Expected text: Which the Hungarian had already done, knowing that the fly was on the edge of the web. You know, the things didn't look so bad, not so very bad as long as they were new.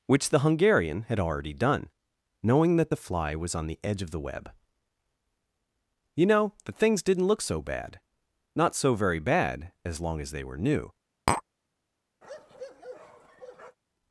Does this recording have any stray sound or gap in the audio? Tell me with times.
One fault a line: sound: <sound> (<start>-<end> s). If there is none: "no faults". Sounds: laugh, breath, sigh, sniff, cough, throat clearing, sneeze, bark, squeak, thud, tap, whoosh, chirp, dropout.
sound: tap (11.3-11.4 s)
sound: bark (12.2-13.8 s)